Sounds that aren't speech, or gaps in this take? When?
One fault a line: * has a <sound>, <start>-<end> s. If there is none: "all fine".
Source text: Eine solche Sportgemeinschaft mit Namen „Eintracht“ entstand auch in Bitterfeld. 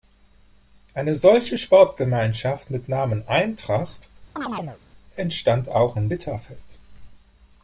* has a chirp, 4.4-4.8 s